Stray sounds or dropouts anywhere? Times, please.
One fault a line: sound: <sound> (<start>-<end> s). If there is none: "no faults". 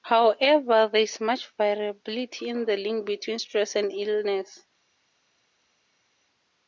no faults